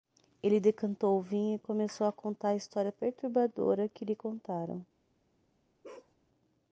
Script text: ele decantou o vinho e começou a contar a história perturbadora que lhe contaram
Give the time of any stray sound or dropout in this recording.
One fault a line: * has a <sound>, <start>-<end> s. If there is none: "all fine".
* has a bark, 5.8-6.2 s